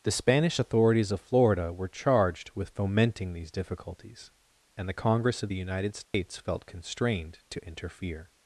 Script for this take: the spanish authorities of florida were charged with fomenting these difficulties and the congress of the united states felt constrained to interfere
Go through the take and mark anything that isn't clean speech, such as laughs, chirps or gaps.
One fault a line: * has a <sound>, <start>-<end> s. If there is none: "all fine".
* has a dropout, 6.0-6.1 s